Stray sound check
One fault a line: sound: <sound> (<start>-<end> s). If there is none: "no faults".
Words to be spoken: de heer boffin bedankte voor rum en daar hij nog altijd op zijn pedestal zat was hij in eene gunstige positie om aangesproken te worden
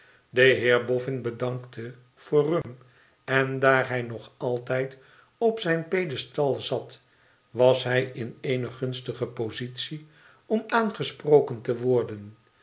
sound: dropout (2.6-2.6 s)